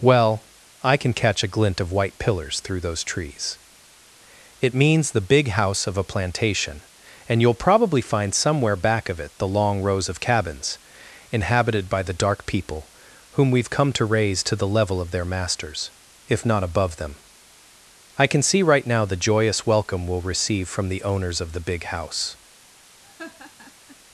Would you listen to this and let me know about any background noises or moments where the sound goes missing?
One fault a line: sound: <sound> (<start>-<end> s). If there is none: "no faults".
sound: laugh (23.0-24.0 s)